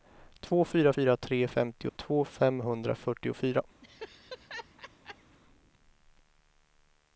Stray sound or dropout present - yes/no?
yes